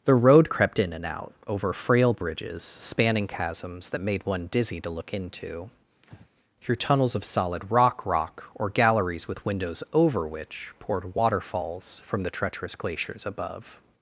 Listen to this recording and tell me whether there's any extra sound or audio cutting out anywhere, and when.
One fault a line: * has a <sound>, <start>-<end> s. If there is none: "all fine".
* has a breath, 6.0-6.3 s